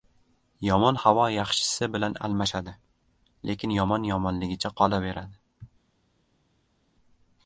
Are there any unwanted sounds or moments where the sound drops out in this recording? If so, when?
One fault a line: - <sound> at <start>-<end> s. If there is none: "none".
none